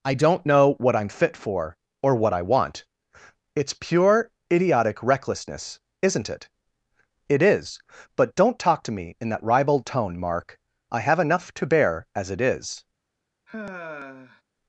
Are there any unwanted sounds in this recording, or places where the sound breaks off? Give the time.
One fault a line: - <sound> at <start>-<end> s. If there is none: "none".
- sigh at 13.5-14.4 s